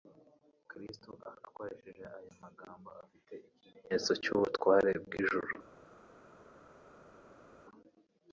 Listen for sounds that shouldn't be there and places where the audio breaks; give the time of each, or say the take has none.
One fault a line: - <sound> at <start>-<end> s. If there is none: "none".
none